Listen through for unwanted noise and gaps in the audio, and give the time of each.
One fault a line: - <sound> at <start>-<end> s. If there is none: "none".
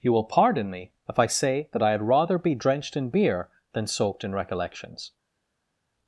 none